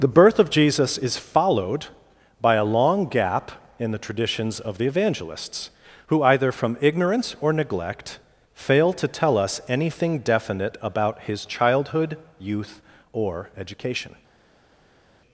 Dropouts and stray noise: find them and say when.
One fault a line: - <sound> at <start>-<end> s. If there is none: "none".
none